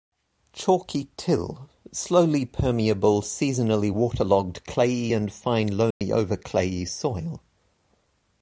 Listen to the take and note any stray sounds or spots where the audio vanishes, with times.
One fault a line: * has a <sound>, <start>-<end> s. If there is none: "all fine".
* has a dropout, 5.9-6.0 s